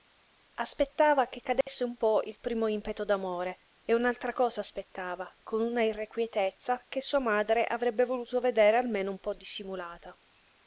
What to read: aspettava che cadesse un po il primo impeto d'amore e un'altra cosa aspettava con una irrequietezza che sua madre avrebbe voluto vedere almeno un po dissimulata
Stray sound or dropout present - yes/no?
yes